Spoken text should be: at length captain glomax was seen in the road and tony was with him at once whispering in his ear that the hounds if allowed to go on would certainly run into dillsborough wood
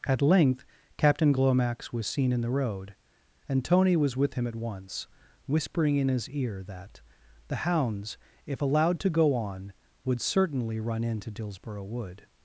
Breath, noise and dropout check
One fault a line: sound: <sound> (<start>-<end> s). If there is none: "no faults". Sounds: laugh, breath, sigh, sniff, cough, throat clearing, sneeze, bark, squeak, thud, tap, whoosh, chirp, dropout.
no faults